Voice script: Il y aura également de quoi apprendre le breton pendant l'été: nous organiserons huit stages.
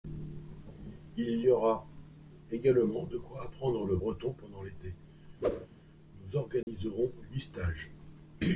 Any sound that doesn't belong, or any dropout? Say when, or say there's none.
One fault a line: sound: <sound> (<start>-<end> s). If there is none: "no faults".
sound: whoosh (5.4-5.7 s)
sound: dropout (6.6-6.7 s)